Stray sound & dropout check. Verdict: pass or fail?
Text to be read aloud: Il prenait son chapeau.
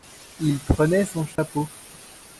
fail